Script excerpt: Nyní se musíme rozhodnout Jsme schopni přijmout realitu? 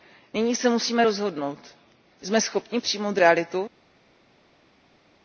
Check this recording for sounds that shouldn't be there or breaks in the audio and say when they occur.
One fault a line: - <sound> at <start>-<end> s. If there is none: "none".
none